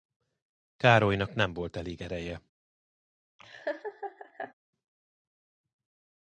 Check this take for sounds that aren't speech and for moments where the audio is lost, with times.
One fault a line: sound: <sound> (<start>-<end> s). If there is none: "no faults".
sound: laugh (3.4-4.5 s)